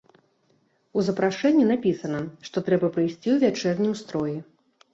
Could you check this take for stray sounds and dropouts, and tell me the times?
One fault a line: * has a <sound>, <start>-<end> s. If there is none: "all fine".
all fine